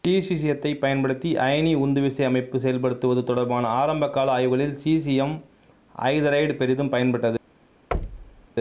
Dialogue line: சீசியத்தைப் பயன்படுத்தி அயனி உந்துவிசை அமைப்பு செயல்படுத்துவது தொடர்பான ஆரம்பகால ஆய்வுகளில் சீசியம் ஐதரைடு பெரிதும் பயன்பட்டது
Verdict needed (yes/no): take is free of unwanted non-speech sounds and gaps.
no